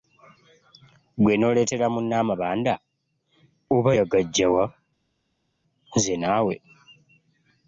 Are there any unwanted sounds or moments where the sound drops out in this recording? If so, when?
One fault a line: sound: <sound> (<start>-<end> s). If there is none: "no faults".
no faults